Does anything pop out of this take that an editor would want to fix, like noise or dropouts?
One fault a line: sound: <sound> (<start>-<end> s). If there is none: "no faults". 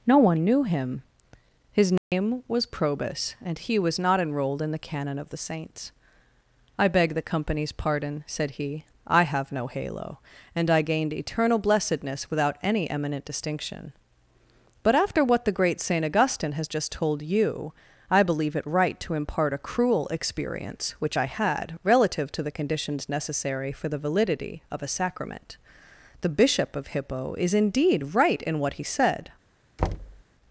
sound: dropout (2.0-2.1 s)
sound: thud (29.8-30.2 s)